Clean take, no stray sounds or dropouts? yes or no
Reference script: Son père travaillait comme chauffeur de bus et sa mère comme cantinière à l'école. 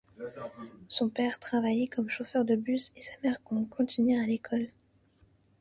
yes